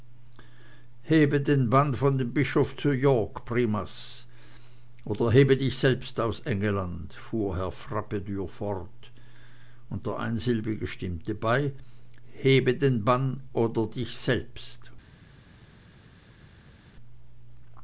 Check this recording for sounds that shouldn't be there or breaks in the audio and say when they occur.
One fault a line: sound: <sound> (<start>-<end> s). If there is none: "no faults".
no faults